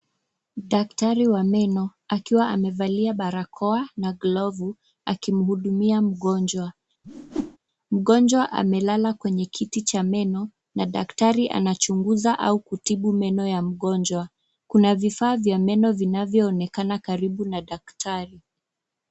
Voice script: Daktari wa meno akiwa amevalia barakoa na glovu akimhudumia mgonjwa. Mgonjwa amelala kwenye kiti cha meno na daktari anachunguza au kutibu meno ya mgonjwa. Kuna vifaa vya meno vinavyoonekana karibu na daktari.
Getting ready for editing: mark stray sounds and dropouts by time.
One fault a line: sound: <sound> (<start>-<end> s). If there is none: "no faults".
sound: whoosh (7.0-7.6 s)